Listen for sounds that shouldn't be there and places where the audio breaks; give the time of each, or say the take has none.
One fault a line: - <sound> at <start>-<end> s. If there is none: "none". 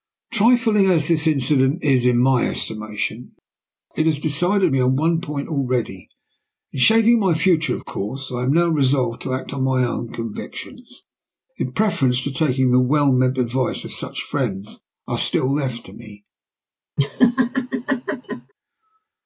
- laugh at 17.0-18.5 s